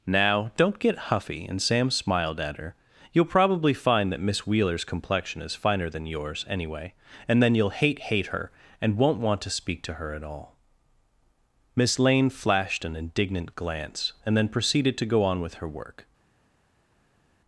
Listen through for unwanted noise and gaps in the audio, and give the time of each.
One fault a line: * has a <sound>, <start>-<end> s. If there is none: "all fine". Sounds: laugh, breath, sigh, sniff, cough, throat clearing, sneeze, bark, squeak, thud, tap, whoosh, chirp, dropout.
all fine